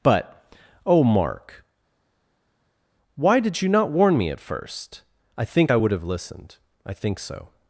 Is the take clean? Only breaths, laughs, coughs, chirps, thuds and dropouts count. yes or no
yes